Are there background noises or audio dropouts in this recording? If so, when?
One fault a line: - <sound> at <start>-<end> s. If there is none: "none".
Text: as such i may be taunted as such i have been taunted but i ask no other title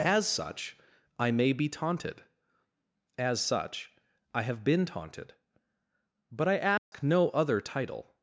- dropout at 6.8-6.9 s